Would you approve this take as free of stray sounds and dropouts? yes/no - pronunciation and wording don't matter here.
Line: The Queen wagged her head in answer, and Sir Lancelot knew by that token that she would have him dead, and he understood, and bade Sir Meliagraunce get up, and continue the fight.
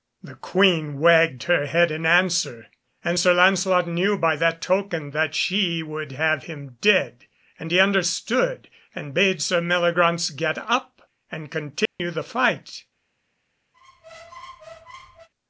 no